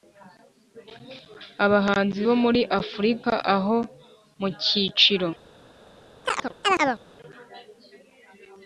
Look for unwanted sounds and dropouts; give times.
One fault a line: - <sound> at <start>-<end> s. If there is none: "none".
- chirp at 6.2-7.0 s